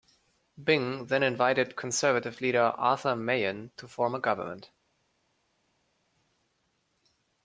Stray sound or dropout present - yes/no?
no